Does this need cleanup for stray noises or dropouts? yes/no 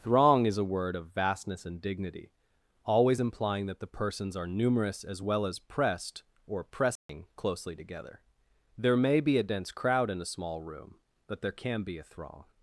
yes